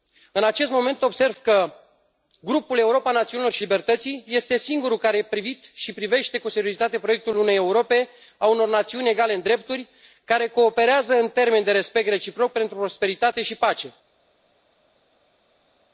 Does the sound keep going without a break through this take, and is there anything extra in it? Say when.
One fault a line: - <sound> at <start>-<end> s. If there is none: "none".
none